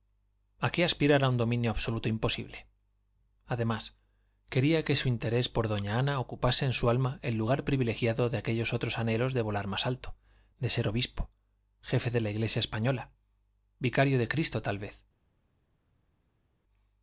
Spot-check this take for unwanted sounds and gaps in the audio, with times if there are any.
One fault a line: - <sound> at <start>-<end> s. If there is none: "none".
none